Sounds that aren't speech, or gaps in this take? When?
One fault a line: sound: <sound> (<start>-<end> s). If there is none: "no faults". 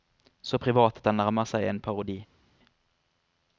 no faults